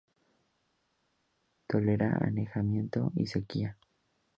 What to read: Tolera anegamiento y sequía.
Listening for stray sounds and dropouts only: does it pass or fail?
pass